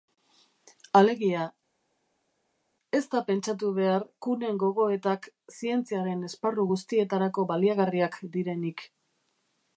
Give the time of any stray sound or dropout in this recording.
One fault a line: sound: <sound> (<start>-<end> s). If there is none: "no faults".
no faults